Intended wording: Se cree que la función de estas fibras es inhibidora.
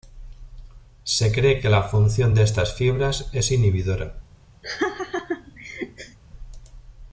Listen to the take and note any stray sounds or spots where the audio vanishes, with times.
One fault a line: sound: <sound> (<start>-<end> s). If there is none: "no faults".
sound: laugh (4.6-6.2 s)